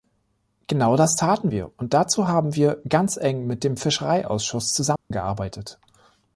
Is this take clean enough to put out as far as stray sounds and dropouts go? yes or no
no